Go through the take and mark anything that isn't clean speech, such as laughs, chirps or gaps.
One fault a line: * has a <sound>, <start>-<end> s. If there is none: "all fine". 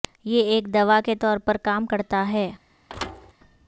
* has a thud, 2.9-3.3 s